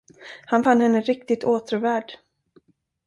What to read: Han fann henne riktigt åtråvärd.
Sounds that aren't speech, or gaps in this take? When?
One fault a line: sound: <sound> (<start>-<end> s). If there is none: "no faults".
no faults